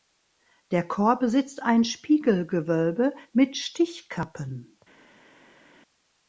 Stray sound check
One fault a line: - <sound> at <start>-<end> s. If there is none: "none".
none